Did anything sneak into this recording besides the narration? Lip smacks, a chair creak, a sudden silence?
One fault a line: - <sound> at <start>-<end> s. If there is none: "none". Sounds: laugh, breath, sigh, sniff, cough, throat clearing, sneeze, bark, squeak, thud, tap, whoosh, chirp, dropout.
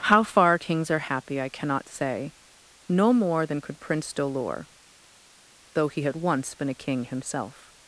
none